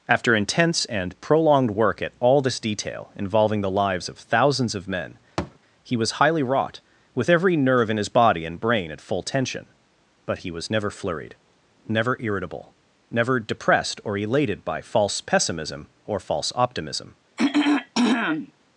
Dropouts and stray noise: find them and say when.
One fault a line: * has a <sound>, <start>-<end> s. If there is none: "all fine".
* has a thud, 5.4-5.6 s
* has a throat clearing, 17.4-18.5 s